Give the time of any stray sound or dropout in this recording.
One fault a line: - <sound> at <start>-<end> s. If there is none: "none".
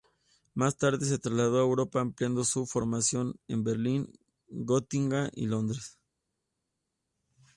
none